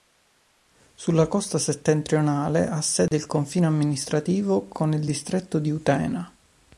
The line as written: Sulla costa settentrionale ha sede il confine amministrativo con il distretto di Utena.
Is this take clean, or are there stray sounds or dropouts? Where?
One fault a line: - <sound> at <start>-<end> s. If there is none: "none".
- dropout at 3.1-3.1 s